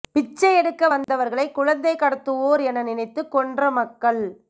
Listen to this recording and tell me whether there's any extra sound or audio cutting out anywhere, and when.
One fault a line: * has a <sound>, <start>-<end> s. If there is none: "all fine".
* has a dropout, 1.0-1.1 s